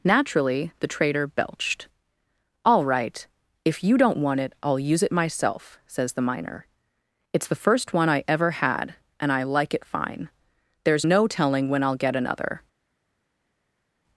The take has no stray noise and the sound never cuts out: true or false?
true